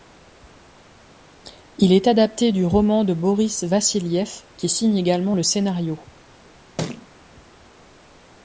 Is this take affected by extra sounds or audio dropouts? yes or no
yes